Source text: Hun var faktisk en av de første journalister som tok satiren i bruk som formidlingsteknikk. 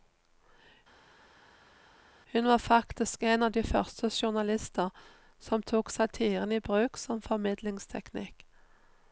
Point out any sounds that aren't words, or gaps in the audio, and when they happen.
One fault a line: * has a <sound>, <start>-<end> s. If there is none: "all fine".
all fine